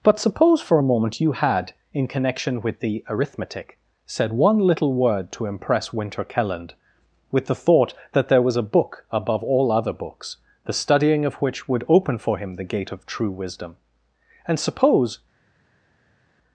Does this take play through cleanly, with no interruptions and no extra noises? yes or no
yes